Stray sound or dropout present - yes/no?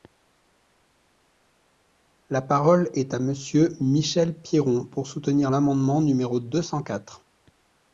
no